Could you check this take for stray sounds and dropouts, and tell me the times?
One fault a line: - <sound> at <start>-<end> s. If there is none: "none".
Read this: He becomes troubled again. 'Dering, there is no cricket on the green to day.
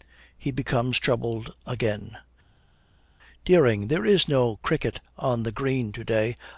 none